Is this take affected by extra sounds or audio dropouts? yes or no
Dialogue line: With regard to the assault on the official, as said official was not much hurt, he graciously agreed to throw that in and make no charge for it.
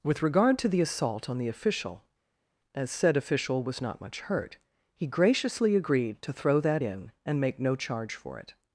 no